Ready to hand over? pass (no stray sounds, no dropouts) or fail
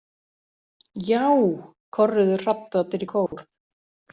fail